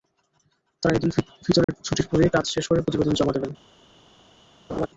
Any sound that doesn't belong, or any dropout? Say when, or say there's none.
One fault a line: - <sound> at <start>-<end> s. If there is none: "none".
- dropout at 1.6-1.7 s
- laugh at 4.7-4.9 s